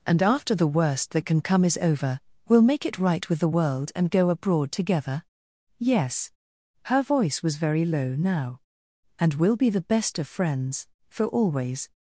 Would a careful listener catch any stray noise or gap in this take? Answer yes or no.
no